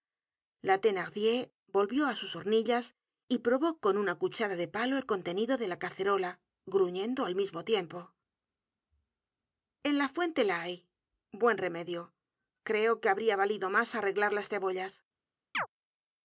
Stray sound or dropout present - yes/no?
yes